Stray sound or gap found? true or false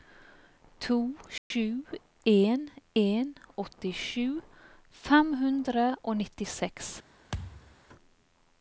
true